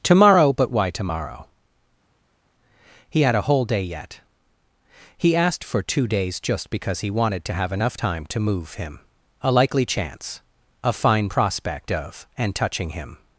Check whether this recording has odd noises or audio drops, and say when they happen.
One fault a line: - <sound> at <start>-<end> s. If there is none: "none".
none